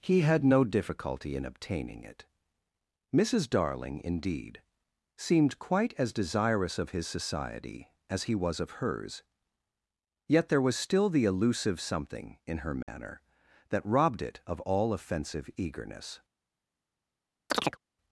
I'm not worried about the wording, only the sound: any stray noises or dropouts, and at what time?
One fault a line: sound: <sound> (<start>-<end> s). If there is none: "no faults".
sound: dropout (12.8-12.9 s)
sound: chirp (17.5-17.8 s)